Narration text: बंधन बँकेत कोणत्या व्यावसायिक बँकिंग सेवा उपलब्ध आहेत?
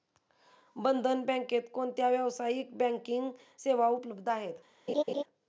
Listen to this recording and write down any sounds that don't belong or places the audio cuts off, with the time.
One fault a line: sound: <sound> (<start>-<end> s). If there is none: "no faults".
sound: laugh (4.9-5.2 s)